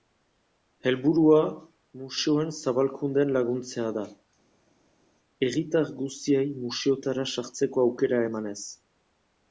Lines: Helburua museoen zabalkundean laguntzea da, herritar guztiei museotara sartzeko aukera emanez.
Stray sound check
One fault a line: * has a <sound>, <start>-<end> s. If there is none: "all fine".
all fine